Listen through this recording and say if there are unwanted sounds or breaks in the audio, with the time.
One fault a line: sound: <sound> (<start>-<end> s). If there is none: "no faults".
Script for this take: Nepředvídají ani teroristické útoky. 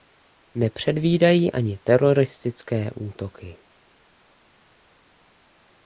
no faults